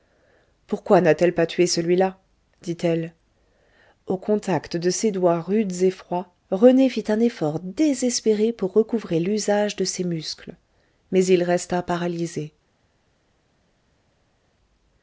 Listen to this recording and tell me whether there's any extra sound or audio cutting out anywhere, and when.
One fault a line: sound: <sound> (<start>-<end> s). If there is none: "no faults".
no faults